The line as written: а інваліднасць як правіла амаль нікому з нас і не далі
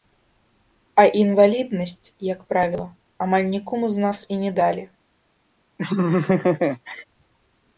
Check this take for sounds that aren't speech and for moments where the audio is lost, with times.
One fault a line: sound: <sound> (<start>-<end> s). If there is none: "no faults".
sound: laugh (5.8-7.0 s)